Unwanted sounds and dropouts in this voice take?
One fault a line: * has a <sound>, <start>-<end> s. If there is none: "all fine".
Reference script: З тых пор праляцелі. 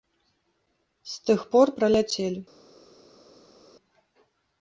all fine